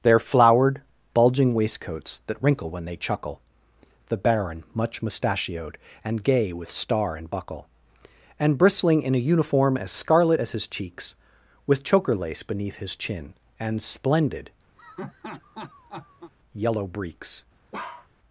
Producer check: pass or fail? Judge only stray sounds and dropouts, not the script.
fail